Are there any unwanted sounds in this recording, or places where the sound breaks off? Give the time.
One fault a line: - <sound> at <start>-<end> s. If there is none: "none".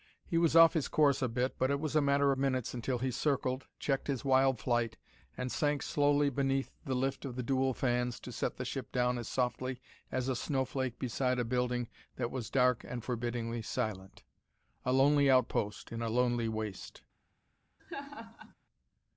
- laugh at 17.8-18.5 s